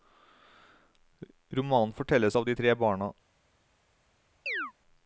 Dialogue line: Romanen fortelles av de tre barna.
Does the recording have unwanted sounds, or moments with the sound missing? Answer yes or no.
yes